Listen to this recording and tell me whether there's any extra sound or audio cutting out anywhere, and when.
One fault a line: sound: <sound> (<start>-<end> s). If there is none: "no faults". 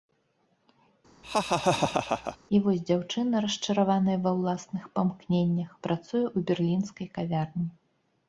sound: laugh (1.2-2.4 s)